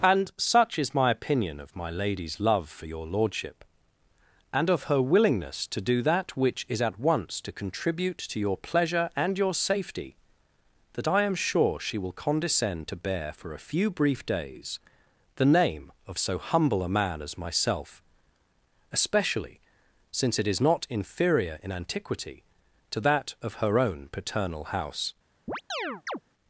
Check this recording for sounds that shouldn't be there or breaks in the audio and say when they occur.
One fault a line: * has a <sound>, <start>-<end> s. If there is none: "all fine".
* has a chirp, 25.5-26.2 s